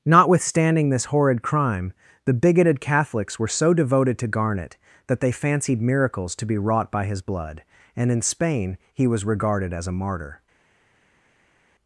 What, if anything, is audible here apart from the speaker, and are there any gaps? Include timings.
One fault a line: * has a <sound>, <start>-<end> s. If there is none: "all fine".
all fine